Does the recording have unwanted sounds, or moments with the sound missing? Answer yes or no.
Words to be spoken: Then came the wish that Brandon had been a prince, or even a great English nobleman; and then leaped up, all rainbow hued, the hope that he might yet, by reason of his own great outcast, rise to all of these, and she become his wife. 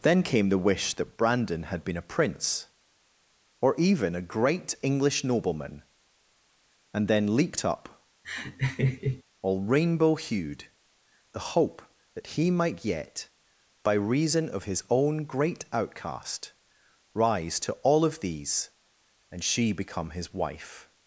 yes